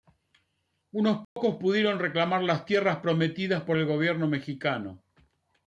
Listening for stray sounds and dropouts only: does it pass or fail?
fail